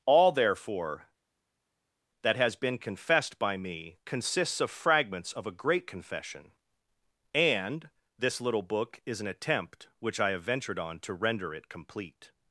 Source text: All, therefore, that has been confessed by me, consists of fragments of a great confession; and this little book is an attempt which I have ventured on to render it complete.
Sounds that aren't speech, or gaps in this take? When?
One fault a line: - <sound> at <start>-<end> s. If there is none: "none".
none